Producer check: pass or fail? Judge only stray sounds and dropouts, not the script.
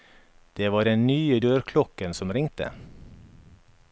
pass